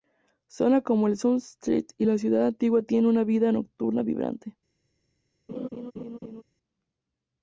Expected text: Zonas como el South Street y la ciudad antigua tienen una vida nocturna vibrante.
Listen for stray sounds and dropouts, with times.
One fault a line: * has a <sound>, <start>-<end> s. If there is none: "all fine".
* has a laugh, 5.5-6.4 s